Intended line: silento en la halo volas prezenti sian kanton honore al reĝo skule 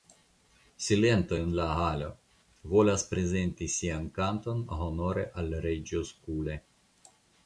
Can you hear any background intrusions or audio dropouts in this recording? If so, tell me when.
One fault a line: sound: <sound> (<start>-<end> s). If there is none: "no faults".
no faults